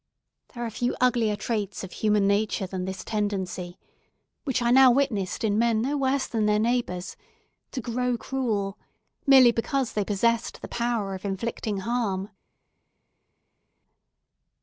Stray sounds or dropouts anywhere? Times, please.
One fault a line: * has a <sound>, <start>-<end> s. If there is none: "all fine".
all fine